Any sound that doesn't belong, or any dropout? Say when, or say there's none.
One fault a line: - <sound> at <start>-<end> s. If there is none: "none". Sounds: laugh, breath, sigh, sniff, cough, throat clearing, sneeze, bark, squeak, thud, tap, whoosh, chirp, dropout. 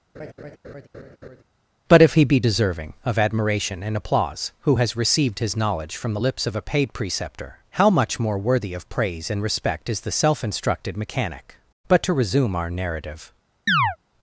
- laugh at 0.1-1.4 s
- chirp at 13.7-14.0 s